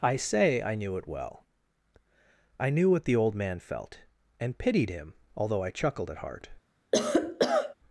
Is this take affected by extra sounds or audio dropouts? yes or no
yes